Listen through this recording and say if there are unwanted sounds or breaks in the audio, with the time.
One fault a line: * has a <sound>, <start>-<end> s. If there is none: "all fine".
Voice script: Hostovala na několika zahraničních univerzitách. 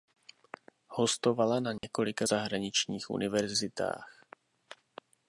* has a dropout, 1.8-1.8 s